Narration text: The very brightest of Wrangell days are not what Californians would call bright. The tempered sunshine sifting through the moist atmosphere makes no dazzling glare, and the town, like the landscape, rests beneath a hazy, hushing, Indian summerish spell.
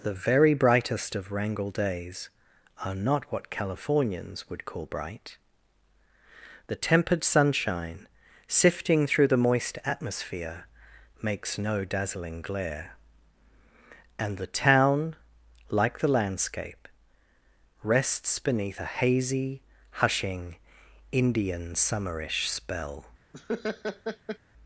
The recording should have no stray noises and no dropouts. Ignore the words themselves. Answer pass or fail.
fail